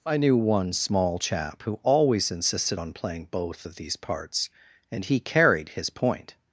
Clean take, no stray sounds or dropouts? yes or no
yes